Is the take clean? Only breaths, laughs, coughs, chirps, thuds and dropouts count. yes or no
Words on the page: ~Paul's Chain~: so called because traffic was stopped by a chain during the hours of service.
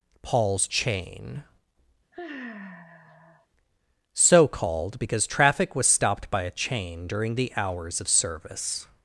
no